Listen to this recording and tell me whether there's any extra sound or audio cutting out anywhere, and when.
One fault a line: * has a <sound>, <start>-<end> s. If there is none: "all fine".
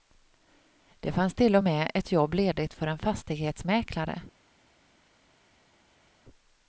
all fine